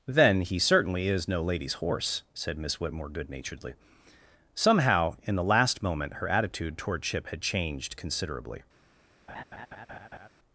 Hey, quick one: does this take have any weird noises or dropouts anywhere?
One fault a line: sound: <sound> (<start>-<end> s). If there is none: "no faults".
sound: laugh (9.3-10.3 s)